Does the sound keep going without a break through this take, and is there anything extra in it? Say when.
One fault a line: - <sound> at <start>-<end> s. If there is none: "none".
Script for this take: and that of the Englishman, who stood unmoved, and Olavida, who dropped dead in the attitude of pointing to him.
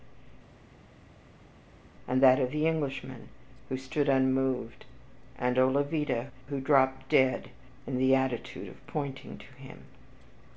none